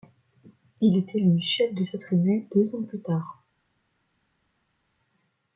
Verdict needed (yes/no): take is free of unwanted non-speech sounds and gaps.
yes